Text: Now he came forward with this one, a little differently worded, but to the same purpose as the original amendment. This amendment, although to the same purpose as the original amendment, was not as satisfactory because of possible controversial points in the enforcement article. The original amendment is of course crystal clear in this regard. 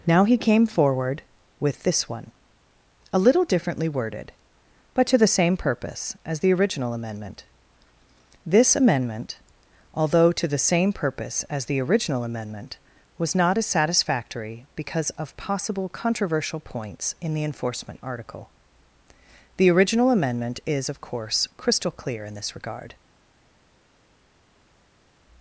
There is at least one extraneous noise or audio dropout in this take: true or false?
false